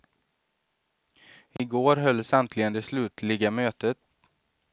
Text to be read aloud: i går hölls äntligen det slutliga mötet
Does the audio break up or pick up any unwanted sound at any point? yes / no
yes